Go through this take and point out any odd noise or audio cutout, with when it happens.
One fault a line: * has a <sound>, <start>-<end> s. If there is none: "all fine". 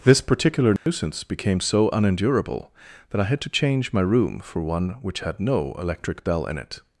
* has a dropout, 0.8-0.9 s